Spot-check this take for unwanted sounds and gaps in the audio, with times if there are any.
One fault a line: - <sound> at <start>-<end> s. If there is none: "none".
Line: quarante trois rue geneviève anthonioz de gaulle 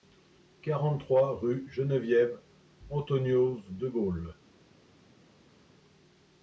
none